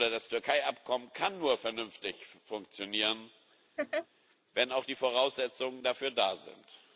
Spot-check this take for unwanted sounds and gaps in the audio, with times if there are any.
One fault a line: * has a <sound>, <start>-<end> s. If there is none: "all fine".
* has a laugh, 3.8-4.1 s